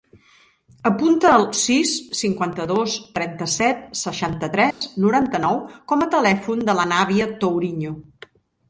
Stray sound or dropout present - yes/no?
yes